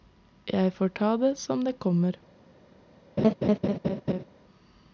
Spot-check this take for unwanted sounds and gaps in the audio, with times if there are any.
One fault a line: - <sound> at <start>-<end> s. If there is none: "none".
- laugh at 3.2-4.2 s